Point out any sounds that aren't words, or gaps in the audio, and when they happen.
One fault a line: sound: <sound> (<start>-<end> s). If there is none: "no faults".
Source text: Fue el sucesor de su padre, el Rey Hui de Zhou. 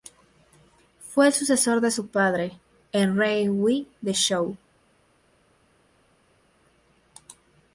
no faults